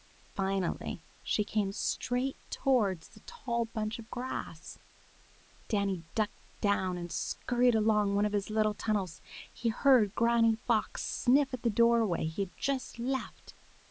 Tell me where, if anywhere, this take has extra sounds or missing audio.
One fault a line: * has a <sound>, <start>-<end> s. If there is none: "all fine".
all fine